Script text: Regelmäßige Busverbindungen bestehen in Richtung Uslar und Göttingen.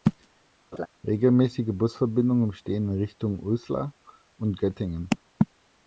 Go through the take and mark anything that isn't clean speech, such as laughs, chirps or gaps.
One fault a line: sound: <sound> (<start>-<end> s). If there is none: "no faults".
sound: laugh (0.7-0.9 s)